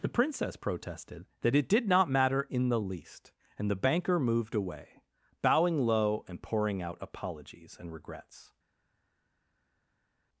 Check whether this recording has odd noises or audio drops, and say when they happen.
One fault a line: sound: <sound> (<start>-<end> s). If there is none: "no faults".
no faults